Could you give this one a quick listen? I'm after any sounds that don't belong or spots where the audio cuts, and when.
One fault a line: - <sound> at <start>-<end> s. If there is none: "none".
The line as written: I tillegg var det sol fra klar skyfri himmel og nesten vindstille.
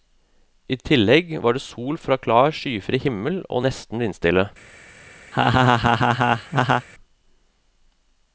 - laugh at 5.3-6.9 s